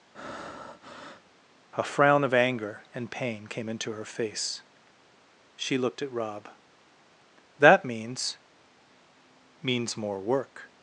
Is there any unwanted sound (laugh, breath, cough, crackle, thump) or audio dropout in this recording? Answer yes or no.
yes